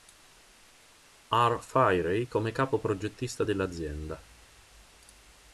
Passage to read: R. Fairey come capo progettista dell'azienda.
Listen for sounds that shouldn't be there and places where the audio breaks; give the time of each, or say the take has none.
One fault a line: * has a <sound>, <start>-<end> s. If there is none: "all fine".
all fine